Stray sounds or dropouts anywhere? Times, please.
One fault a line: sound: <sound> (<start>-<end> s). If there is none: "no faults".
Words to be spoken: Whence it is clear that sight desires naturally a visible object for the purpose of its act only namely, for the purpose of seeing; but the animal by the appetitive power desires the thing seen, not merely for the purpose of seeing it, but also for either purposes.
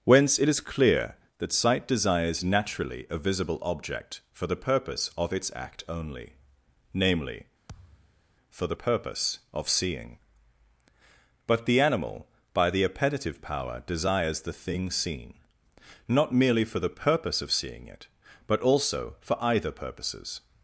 sound: thud (7.7-8.2 s)